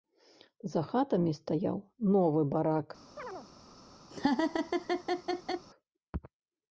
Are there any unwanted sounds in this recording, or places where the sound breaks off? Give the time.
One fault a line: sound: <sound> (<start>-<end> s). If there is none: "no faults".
sound: chirp (3.2-3.5 s)
sound: laugh (4.1-5.7 s)